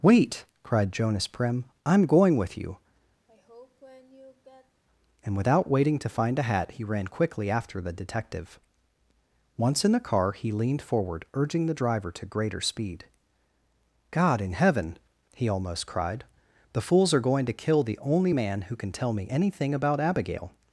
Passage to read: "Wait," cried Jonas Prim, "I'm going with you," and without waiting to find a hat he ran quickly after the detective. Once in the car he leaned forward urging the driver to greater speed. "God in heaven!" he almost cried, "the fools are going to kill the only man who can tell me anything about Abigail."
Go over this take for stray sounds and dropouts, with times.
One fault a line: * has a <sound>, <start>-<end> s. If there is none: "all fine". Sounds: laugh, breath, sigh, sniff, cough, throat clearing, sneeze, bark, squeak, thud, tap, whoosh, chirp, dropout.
* has a sigh, 3.3-4.8 s